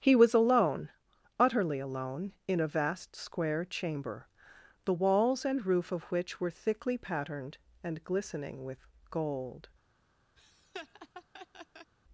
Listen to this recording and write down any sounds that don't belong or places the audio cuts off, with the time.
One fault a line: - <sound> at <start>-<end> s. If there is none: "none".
- laugh at 10.4-11.9 s